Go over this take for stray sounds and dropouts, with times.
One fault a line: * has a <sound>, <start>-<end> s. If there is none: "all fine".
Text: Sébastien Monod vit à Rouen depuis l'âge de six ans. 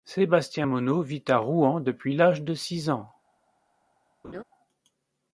* has a laugh, 4.2-4.4 s